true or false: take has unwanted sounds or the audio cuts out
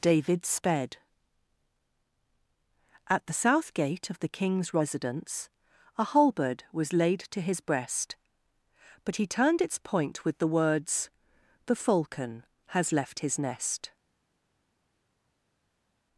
false